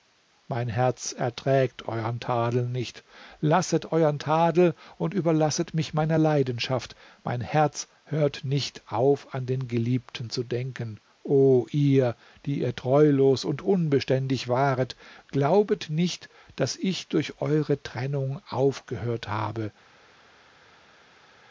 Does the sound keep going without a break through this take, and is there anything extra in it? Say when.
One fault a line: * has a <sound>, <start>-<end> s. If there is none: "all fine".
all fine